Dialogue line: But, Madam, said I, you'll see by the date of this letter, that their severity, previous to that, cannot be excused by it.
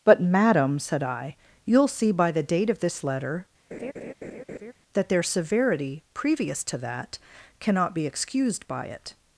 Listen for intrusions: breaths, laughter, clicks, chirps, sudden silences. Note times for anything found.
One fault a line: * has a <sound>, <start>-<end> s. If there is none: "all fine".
* has a laugh, 3.7-4.7 s